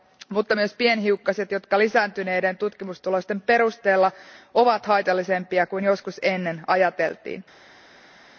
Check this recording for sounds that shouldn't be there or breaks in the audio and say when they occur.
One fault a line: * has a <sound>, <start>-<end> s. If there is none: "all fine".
all fine